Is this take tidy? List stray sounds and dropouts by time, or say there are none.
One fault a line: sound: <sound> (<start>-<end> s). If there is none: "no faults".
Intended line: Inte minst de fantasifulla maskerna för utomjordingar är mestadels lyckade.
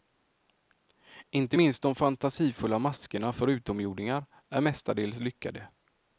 no faults